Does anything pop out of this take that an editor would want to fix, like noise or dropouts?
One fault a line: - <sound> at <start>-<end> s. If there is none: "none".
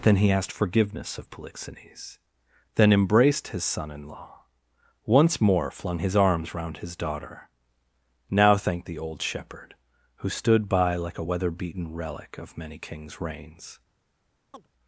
- chirp at 14.5-14.7 s